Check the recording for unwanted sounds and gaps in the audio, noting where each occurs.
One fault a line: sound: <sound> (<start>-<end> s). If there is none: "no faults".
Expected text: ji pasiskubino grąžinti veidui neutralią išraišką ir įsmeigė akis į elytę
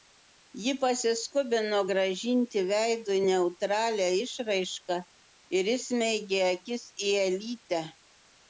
no faults